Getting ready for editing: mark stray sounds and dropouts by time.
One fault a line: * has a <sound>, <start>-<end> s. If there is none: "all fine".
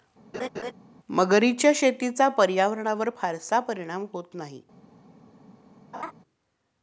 * has a laugh, 0.3-0.7 s
* has a laugh, 5.9-6.1 s